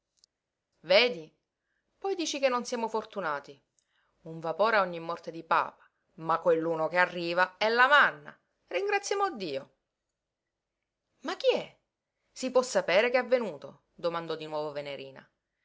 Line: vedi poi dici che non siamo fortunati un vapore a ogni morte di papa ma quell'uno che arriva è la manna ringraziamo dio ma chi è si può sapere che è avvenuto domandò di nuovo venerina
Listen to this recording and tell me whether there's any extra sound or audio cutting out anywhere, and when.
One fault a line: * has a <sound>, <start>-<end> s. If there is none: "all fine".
all fine